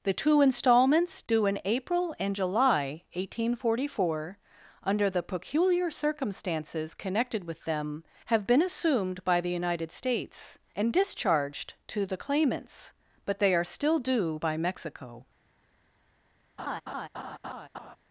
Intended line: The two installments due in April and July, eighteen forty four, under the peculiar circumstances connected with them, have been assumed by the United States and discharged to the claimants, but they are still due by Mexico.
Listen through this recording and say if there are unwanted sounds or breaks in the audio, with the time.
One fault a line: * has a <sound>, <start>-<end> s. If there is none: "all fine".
* has a laugh, 16.6-18.0 s